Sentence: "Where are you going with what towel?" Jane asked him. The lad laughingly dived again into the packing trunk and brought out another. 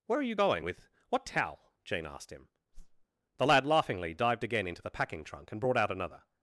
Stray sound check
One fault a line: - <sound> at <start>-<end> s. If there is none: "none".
- whoosh at 2.7-3.1 s